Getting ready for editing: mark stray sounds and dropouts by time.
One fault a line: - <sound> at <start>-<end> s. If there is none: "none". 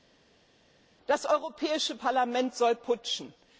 none